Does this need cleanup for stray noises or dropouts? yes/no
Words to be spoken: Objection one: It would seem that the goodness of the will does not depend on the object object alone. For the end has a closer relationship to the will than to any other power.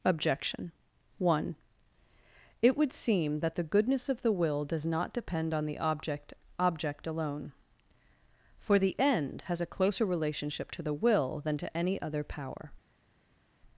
no